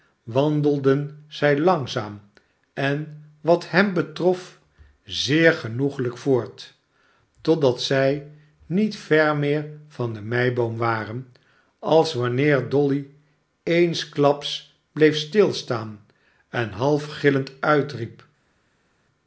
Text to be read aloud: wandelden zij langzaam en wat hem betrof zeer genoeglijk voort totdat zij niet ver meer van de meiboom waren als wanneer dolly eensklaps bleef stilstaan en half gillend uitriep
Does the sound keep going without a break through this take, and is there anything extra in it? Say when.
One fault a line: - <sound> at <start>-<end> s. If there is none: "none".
none